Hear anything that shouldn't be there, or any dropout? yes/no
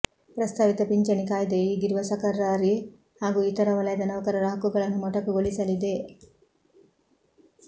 no